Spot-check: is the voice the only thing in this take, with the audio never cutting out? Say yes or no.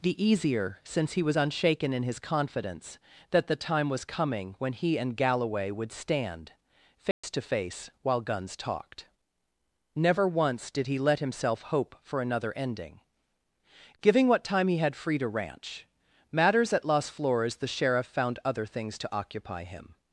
no